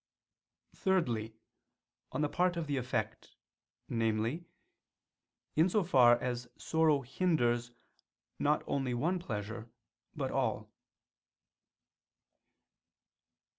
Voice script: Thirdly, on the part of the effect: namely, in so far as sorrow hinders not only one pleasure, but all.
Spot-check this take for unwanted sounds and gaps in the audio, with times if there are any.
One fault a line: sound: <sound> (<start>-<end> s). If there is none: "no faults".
no faults